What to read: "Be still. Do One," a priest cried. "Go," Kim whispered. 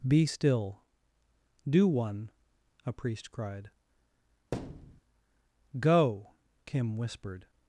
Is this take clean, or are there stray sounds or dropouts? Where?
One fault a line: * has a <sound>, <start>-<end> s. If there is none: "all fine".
* has a thud, 4.5-5.0 s